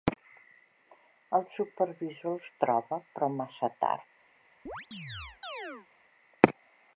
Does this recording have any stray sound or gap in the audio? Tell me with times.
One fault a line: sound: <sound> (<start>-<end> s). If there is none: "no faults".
sound: chirp (4.7-5.9 s)